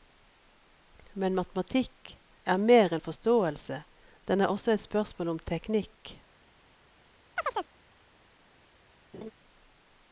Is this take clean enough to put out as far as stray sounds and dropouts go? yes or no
no